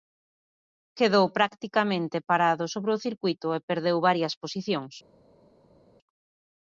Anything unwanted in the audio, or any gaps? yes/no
no